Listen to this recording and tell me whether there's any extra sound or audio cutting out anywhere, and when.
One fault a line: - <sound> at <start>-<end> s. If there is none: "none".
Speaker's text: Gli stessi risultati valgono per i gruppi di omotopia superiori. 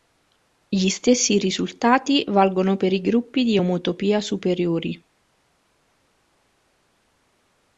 none